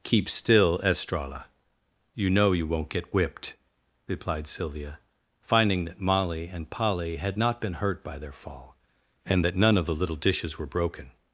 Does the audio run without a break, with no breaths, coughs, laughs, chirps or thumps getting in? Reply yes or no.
yes